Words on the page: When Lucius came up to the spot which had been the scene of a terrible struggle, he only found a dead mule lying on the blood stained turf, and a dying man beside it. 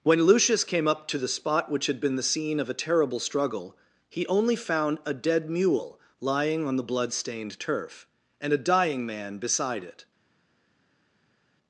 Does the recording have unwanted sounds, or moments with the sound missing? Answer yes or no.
no